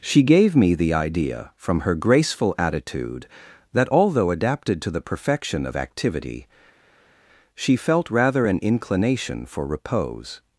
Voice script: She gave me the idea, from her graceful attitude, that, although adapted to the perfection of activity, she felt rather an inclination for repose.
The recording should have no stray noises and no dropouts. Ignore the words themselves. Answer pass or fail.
pass